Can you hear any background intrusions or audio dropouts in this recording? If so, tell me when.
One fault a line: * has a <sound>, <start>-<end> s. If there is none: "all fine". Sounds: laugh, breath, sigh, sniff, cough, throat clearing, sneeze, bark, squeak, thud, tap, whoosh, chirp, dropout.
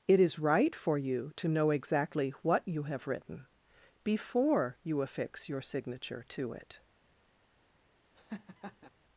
* has a laugh, 8.2-8.9 s